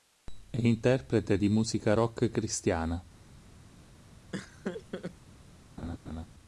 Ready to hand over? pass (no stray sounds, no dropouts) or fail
fail